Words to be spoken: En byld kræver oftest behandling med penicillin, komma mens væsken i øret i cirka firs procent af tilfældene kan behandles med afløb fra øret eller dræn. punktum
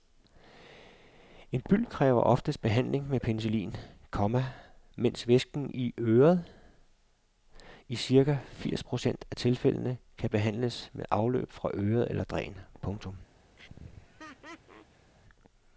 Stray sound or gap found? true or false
true